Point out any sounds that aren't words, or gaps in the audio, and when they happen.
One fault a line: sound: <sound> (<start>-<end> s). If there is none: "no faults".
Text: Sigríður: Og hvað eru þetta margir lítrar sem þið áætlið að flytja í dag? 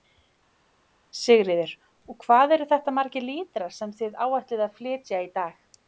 no faults